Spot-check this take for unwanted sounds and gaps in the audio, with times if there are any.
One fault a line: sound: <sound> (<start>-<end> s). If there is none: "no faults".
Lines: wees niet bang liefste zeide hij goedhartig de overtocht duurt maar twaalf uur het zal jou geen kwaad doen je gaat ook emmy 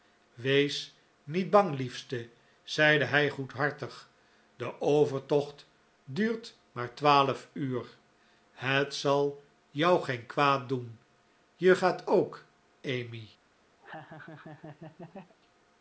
sound: laugh (13.8-15.3 s)